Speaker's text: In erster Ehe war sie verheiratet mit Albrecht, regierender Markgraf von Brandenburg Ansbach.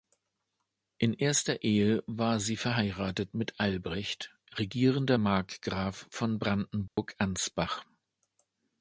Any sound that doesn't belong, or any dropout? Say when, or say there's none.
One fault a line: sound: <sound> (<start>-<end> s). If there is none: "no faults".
sound: dropout (6.9-7.0 s)